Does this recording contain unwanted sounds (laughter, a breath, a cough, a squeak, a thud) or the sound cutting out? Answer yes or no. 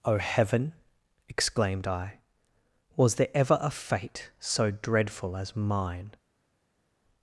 no